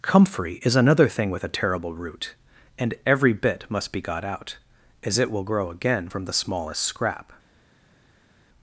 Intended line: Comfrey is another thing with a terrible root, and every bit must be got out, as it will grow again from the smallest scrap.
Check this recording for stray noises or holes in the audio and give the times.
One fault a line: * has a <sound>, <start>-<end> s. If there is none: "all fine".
all fine